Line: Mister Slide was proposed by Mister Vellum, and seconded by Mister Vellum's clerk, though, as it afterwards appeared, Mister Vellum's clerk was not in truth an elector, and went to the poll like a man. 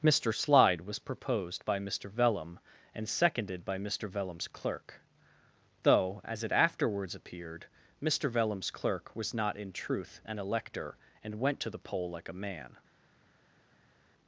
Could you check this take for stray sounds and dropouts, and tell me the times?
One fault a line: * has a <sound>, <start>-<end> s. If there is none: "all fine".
all fine